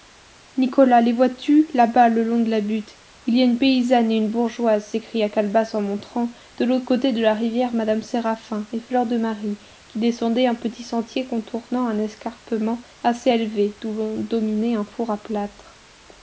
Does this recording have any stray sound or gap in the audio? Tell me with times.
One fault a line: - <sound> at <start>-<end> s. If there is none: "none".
none